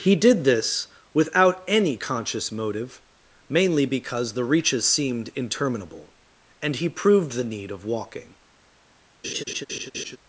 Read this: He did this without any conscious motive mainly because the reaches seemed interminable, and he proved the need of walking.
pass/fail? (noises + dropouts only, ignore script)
fail